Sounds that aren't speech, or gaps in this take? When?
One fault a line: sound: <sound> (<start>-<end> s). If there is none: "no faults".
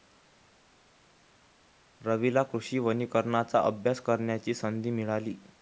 no faults